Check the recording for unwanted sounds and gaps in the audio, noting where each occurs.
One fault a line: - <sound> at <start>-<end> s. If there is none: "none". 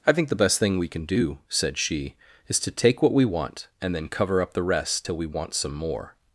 none